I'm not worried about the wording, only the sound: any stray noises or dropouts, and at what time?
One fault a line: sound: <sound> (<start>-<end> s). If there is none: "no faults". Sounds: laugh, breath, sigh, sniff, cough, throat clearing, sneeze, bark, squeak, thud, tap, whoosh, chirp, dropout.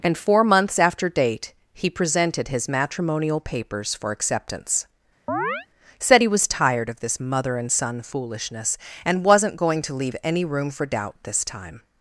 sound: chirp (5.3-5.7 s)